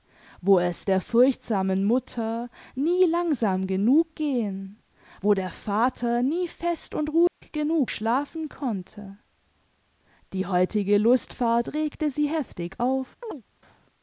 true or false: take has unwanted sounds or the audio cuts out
true